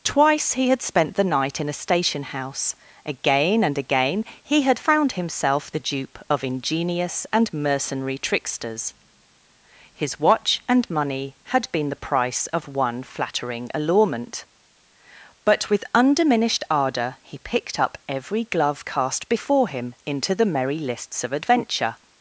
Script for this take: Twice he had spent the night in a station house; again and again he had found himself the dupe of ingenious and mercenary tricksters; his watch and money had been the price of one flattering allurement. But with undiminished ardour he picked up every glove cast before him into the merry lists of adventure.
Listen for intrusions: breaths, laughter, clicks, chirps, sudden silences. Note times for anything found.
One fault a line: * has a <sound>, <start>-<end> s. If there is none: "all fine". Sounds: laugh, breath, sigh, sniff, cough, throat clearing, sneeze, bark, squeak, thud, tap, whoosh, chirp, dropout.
all fine